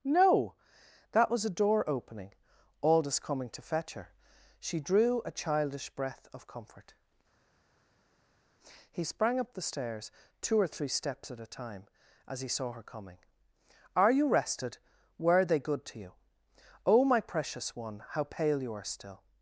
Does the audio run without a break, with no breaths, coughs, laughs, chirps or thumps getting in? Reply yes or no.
yes